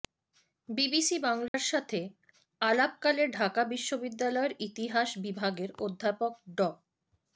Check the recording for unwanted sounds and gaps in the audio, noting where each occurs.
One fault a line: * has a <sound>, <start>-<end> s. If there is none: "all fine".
* has a dropout, 1.5-1.5 s